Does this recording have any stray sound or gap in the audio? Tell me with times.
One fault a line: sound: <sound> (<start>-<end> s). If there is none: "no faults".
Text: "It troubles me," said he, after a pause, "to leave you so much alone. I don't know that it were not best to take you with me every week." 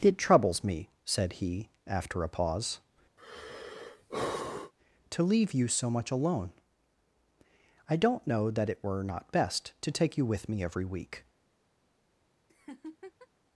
sound: sigh (3.2-4.7 s)
sound: laugh (12.5-13.3 s)